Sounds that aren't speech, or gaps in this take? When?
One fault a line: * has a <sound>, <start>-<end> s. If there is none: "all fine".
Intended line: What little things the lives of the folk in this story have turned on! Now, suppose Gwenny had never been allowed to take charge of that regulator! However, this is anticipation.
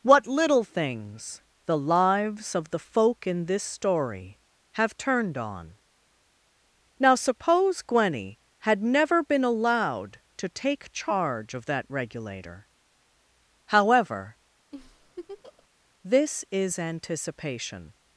* has a laugh, 14.7-15.7 s